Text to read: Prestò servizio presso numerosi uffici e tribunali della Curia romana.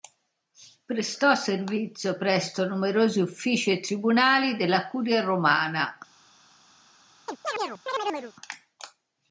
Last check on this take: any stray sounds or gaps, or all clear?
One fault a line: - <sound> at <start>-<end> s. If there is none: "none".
- chirp at 7.3-8.3 s